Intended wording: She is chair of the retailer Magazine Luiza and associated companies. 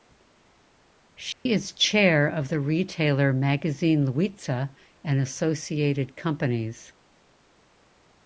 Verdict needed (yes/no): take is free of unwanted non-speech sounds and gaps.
no